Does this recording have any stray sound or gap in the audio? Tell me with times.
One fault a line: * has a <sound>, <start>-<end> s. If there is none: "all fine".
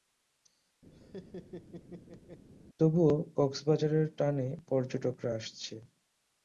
* has a laugh, 0.9-2.4 s